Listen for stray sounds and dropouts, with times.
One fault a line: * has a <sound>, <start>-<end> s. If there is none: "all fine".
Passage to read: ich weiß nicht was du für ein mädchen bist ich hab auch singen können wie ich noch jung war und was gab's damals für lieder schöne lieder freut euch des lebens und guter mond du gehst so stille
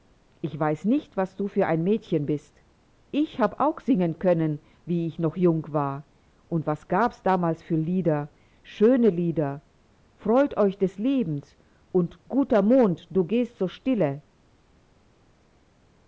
all fine